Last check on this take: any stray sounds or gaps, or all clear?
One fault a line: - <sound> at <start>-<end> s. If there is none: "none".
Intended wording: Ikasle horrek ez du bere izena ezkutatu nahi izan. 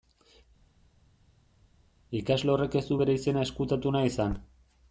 none